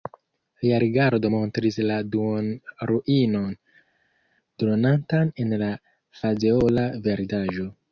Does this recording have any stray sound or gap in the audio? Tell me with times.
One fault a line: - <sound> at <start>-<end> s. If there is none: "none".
none